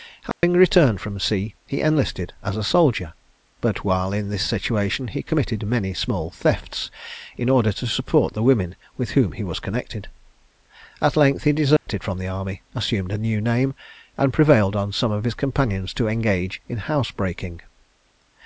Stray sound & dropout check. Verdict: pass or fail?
fail